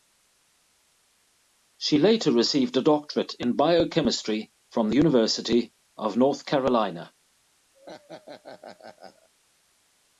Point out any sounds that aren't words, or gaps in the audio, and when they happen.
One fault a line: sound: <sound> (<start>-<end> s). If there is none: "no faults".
sound: laugh (7.7-9.3 s)